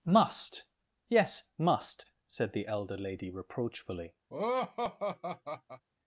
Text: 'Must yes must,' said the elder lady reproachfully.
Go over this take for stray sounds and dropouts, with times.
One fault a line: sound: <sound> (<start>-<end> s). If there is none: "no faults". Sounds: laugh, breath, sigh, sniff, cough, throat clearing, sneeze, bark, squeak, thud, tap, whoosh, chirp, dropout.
sound: laugh (4.3-5.8 s)